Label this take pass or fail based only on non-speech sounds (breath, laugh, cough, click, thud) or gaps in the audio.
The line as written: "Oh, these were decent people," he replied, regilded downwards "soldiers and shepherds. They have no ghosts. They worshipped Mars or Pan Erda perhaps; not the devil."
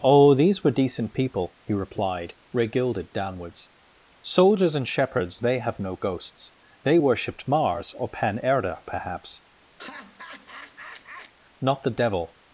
fail